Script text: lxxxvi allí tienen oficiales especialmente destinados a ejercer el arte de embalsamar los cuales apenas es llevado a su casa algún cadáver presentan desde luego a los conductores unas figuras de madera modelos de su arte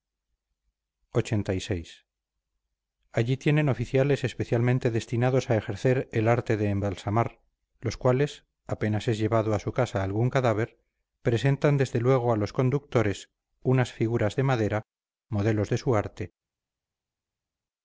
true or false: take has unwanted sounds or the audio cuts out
false